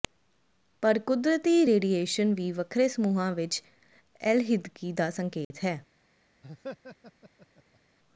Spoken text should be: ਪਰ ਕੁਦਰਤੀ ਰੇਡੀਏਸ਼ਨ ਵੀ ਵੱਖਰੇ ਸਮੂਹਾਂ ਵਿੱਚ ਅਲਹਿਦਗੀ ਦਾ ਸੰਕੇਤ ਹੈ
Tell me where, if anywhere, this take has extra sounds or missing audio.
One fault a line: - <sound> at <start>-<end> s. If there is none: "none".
- dropout at 5.4-5.5 s
- laugh at 6.4-7.8 s